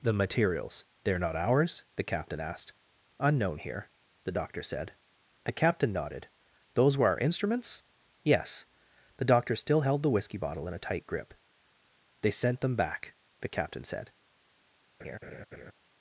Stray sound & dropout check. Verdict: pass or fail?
fail